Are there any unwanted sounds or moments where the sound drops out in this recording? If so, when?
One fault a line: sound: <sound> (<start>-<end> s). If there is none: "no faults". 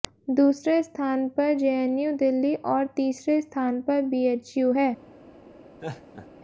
sound: laugh (5.8-6.3 s)